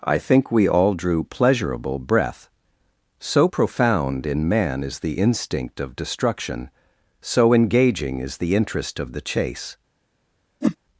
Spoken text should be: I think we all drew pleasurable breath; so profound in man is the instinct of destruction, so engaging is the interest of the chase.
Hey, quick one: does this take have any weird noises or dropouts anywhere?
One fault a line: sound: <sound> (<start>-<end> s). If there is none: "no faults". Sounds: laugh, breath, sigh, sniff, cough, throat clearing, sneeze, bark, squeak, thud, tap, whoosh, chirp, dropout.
sound: whoosh (10.6-10.8 s)